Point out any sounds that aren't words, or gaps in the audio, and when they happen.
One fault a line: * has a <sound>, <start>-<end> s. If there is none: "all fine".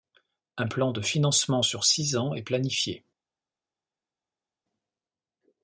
all fine